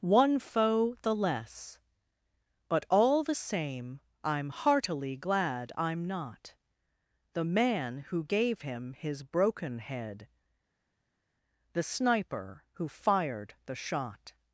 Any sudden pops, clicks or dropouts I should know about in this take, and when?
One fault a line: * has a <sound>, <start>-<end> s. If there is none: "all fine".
all fine